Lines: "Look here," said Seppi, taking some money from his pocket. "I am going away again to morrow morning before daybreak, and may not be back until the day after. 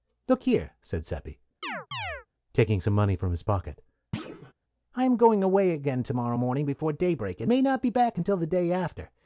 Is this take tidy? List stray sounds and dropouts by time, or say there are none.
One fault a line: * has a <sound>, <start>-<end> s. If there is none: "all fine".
* has a chirp, 1.6-2.3 s
* has a thud, 4.1-4.5 s